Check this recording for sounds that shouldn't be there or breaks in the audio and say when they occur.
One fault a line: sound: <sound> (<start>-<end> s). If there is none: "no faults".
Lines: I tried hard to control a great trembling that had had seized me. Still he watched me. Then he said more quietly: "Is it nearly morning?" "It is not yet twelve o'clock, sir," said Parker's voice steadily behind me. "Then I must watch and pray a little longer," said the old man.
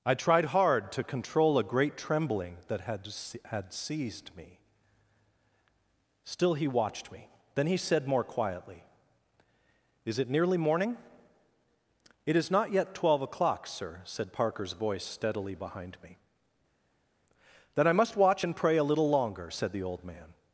no faults